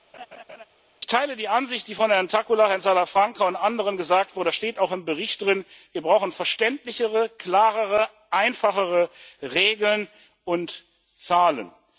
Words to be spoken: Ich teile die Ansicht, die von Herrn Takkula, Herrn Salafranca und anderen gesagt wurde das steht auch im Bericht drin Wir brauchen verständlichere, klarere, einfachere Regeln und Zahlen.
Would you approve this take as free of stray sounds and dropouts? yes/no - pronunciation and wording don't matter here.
no